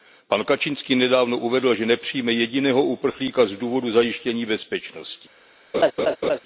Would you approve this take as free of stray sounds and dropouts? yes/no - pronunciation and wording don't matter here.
no